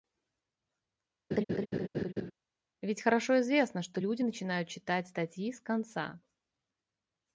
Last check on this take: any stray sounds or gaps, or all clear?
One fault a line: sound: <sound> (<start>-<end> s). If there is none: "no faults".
sound: laugh (1.3-2.3 s)